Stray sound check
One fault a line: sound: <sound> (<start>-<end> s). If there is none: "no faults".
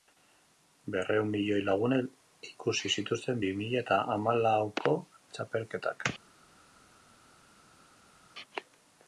no faults